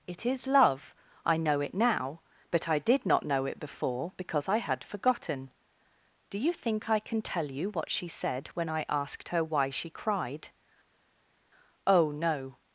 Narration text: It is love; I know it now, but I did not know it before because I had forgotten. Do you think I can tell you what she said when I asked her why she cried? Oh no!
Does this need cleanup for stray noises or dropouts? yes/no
no